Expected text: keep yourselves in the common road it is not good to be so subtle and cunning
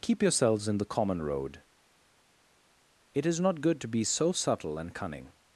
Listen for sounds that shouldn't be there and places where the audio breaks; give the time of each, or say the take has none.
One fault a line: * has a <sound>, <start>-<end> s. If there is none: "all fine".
all fine